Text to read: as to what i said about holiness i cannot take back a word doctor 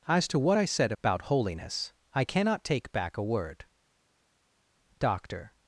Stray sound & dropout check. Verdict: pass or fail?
pass